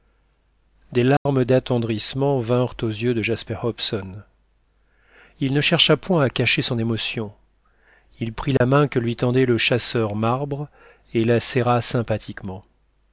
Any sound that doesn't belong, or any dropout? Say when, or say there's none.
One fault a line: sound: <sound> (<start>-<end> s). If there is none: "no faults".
sound: dropout (1.2-1.3 s)
sound: dropout (8.6-8.6 s)